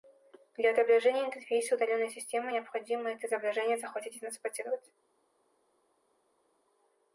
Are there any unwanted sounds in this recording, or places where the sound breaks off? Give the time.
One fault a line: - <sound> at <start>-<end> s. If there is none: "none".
none